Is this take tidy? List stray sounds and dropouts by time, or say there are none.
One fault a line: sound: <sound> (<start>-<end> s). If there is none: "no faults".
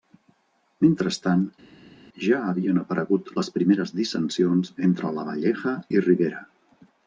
no faults